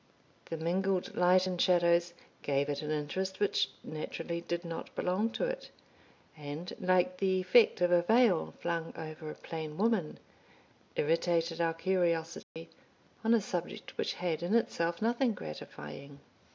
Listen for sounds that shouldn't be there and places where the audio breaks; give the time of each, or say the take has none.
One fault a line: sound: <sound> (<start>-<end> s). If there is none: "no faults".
sound: dropout (12.4-12.6 s)